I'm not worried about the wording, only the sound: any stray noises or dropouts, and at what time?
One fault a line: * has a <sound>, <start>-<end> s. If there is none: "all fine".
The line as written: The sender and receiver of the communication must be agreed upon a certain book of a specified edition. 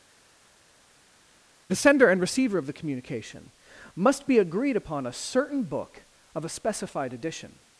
all fine